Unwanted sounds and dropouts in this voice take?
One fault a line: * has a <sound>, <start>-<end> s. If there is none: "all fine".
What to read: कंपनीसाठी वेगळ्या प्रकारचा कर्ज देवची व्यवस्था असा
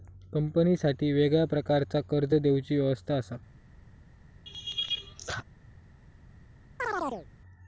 * has a laugh, 4.5-5.4 s
* has a chirp, 6.8-7.3 s